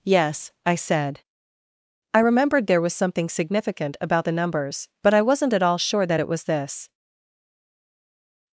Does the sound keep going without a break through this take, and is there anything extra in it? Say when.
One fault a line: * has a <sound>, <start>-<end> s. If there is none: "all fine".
all fine